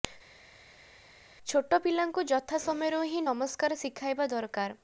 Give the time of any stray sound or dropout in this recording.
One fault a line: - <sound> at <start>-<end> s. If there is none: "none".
none